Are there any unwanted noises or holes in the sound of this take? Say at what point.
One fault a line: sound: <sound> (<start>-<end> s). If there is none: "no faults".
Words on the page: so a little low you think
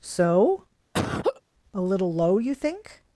sound: laugh (0.9-1.4 s)